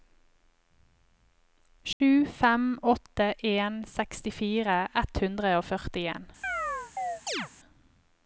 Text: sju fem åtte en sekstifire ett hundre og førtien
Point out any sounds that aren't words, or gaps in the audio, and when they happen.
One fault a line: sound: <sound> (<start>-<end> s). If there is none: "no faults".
sound: dropout (1.9-2.0 s)
sound: chirp (6.4-7.5 s)